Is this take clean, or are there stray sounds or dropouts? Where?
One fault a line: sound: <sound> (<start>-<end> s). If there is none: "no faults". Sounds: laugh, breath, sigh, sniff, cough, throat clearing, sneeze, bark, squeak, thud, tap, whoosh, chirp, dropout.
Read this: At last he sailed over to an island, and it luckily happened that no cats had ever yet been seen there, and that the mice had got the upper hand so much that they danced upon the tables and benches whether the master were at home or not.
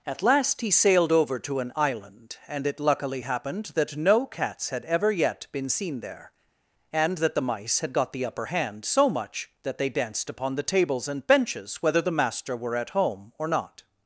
no faults